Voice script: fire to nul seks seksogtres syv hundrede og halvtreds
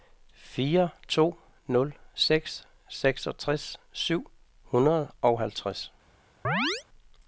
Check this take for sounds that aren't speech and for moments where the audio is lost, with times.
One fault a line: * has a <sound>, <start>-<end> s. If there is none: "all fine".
* has a chirp, 6.4-6.8 s